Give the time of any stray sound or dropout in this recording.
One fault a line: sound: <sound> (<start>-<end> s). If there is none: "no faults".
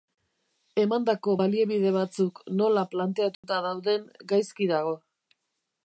sound: dropout (3.3-3.4 s)